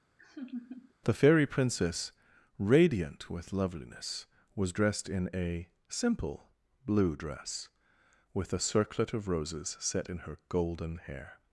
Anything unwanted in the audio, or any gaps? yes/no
yes